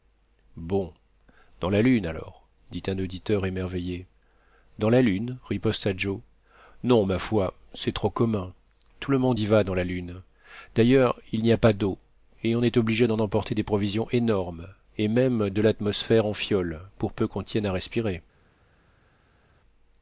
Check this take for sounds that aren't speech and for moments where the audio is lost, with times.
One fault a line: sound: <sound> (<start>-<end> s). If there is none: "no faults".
no faults